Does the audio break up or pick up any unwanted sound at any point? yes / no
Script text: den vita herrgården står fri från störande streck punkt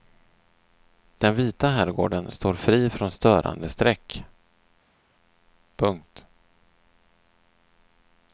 no